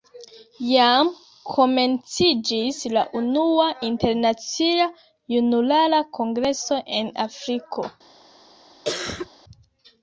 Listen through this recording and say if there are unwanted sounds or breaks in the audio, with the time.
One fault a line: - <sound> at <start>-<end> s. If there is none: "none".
- cough at 8.8-9.3 s